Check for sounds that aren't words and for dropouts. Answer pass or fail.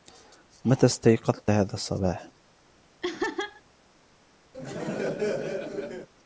fail